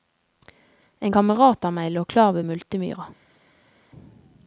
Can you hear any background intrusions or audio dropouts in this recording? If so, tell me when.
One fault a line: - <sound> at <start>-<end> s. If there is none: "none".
none